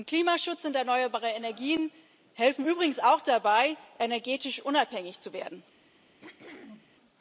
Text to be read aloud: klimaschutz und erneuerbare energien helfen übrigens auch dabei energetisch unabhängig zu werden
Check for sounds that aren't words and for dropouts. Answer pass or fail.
fail